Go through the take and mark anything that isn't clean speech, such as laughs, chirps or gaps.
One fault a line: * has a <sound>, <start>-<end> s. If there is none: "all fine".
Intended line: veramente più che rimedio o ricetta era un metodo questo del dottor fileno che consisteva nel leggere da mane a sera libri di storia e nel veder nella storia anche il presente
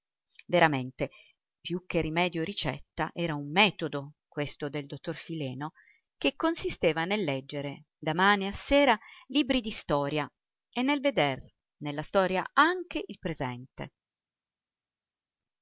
all fine